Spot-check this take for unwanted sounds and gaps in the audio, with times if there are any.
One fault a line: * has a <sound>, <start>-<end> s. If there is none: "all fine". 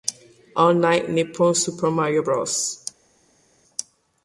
all fine